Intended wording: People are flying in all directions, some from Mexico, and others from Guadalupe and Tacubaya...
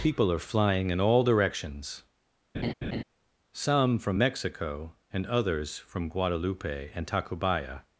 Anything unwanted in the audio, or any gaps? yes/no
yes